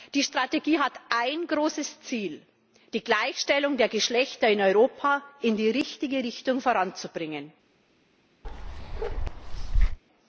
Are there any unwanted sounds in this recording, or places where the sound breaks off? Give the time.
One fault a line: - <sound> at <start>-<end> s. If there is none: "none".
- bark at 8.4-10.0 s